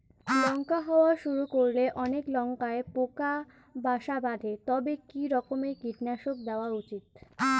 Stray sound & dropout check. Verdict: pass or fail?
pass